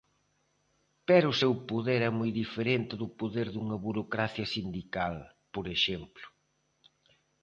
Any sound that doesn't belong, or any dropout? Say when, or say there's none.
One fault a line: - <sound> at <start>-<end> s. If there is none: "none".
none